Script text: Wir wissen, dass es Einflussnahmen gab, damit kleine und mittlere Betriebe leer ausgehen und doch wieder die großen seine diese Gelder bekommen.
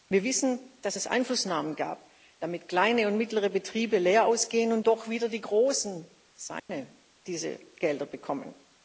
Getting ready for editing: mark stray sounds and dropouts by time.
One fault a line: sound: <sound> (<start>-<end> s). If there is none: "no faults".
sound: dropout (6.6-6.7 s)